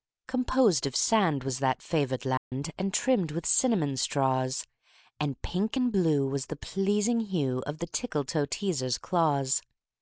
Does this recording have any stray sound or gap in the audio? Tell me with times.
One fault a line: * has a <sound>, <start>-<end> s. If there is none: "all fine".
* has a dropout, 2.4-2.5 s